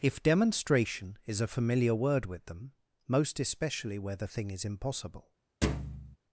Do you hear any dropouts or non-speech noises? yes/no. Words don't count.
yes